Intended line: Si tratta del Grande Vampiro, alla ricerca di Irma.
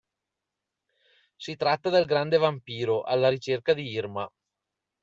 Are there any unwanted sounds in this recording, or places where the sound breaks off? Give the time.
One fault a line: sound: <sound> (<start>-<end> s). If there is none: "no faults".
no faults